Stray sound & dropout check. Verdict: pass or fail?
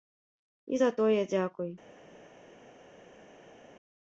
pass